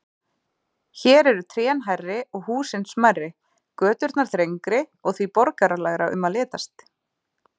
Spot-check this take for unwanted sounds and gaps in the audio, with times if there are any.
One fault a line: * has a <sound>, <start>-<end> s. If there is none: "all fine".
all fine